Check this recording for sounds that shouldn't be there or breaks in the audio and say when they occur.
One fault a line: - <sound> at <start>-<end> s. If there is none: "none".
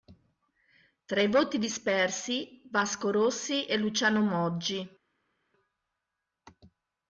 none